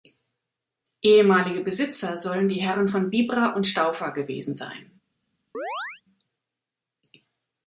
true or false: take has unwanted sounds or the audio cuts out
true